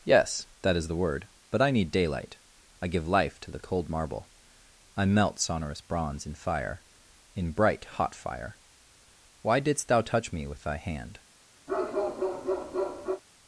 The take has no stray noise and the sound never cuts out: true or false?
false